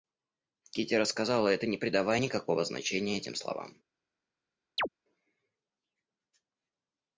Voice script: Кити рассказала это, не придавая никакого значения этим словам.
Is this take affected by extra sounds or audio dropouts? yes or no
yes